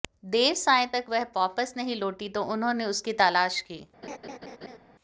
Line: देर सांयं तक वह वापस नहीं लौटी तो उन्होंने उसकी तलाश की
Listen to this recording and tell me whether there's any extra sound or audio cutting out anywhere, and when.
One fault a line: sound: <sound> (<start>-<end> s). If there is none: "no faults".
sound: laugh (4.0-4.8 s)